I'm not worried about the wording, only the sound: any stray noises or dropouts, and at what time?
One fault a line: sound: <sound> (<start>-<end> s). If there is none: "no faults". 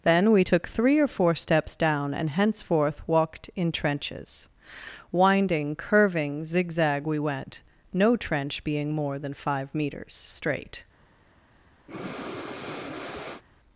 sound: breath (11.9-13.4 s)